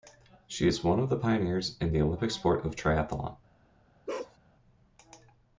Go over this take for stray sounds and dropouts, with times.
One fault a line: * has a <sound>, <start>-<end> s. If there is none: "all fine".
* has a bark, 4.1-4.4 s